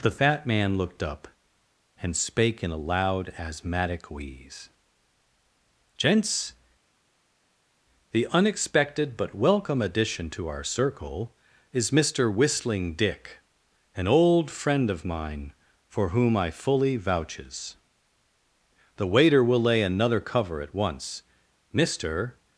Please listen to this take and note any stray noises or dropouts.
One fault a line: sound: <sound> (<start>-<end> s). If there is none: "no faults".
no faults